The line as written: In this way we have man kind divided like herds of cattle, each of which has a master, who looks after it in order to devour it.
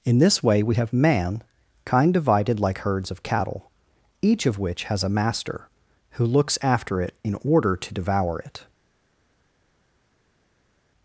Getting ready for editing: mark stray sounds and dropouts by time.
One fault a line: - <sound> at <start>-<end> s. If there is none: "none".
none